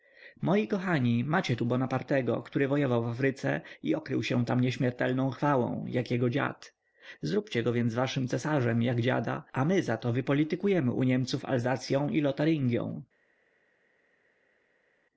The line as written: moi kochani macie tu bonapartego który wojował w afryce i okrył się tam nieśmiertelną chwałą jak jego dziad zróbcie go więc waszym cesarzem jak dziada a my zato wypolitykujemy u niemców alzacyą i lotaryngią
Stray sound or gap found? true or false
false